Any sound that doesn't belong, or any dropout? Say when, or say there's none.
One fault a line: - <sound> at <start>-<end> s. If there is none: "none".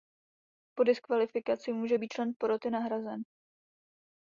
none